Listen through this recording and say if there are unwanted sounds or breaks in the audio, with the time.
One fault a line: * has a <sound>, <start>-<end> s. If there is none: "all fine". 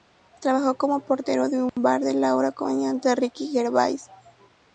* has a dropout, 1.7-1.8 s